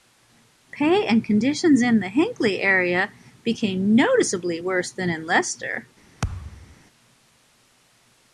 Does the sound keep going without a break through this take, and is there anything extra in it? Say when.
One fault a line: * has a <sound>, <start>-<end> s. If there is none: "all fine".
* has a thud, 6.2-6.8 s